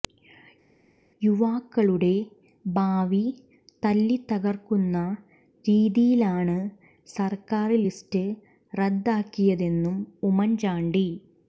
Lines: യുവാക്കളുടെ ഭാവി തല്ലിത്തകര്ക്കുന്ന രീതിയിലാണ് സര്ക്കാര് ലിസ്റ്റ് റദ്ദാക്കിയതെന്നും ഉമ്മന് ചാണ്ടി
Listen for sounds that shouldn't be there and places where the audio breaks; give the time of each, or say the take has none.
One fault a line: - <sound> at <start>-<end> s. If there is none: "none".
none